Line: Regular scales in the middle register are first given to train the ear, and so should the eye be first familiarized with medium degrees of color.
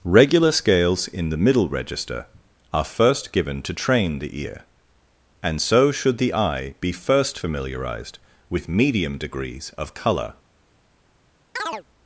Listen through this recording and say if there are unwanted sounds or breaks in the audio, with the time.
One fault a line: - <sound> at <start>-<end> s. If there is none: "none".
- chirp at 11.6-11.8 s